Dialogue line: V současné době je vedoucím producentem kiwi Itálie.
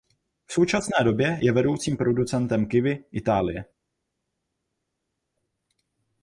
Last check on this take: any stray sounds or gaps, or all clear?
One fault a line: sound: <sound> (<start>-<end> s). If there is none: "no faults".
no faults